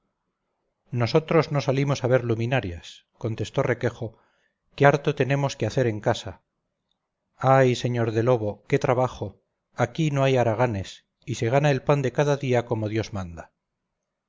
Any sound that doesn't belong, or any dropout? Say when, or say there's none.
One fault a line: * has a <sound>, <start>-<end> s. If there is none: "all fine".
all fine